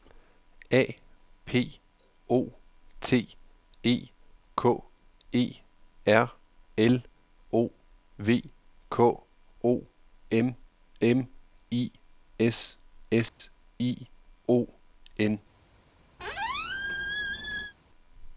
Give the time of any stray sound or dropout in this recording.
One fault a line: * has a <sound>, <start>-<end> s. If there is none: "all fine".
* has a dropout, 13.3-13.4 s
* has a squeak, 16.2-17.7 s